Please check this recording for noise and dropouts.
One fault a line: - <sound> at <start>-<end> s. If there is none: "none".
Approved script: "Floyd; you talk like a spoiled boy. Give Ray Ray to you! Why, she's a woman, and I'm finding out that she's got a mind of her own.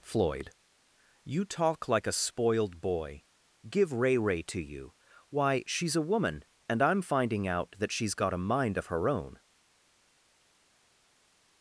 none